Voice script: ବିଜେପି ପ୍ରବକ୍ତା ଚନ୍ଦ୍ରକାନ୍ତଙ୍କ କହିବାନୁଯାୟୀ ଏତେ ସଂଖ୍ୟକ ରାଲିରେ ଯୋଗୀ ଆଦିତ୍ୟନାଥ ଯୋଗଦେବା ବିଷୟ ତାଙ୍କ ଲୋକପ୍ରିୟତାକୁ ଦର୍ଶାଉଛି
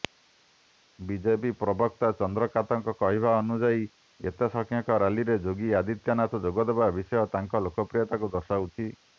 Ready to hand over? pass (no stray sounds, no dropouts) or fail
pass